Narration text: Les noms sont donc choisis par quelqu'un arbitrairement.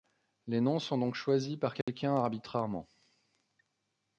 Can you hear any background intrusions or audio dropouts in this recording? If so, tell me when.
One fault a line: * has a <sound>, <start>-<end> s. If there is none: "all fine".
* has a dropout, 1.8-1.9 s